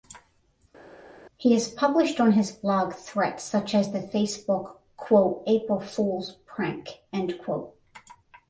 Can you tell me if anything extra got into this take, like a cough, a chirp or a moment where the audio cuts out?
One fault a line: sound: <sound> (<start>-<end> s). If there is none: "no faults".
no faults